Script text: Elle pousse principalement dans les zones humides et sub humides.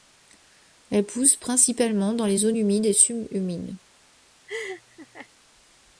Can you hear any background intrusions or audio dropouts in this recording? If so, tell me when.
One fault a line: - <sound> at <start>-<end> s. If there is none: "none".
- laugh at 4.5-5.3 s